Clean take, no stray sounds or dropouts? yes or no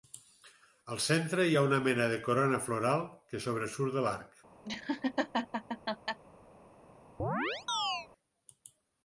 no